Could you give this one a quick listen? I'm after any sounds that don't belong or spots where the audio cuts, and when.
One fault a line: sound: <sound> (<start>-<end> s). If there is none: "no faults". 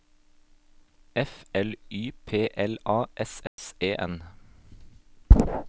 sound: dropout (3.5-3.6 s)